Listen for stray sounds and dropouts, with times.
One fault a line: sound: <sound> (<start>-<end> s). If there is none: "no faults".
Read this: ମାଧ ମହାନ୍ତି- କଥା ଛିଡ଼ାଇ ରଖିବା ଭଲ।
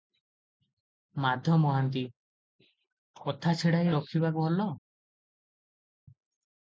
no faults